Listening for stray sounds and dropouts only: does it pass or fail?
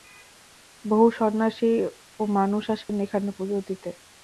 fail